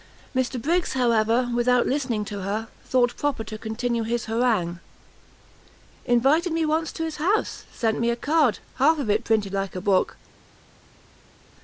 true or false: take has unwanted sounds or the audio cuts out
false